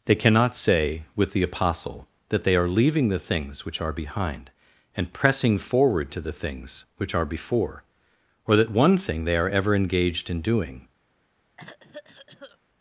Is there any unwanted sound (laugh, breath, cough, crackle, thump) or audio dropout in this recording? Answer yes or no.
yes